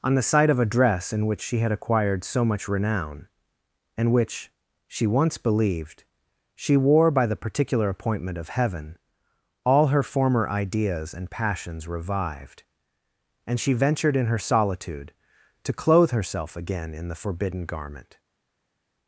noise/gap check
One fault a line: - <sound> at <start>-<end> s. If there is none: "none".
none